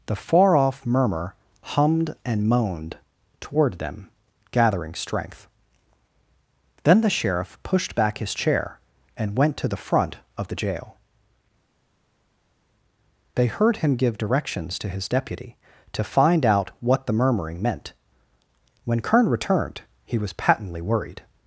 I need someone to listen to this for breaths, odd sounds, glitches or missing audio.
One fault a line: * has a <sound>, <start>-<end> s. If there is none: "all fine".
all fine